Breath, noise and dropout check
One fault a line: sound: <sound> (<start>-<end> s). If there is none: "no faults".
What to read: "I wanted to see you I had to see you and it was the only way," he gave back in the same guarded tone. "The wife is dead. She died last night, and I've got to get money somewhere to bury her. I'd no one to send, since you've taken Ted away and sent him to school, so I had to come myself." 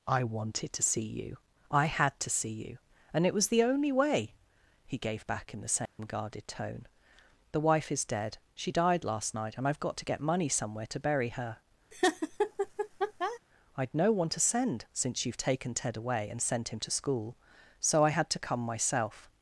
sound: dropout (5.9-6.0 s)
sound: laugh (11.9-13.4 s)